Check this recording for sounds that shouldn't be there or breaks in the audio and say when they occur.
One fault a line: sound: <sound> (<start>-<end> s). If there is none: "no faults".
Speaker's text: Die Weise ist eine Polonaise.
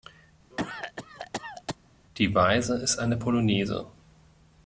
sound: cough (0.5-1.8 s)